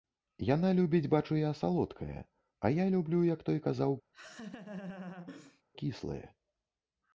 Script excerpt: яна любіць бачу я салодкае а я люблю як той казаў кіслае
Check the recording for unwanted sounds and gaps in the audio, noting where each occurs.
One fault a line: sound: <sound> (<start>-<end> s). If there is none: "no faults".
sound: laugh (4.1-5.6 s)